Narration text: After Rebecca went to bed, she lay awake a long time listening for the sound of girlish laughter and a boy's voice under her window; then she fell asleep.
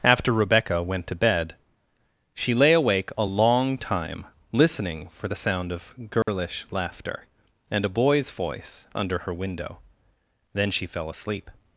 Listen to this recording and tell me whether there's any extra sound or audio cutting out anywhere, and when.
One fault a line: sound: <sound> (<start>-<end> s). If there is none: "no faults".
sound: dropout (6.2-6.3 s)